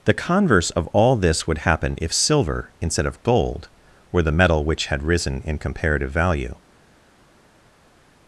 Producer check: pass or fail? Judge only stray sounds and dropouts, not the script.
pass